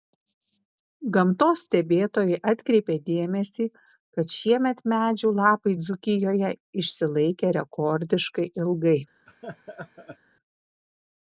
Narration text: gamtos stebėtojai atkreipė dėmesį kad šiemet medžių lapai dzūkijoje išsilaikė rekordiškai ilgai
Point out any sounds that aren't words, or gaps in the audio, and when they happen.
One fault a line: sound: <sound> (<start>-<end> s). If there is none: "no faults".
sound: laugh (9.3-10.2 s)